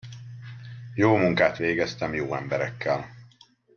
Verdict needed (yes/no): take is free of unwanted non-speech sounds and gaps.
yes